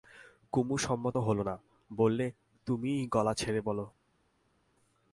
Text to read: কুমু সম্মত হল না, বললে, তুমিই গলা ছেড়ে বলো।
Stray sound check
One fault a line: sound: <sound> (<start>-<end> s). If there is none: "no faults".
no faults